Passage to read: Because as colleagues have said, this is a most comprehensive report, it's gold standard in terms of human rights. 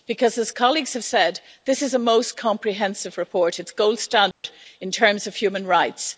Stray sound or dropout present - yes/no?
yes